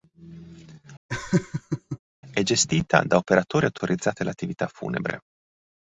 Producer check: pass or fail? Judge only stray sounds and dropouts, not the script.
fail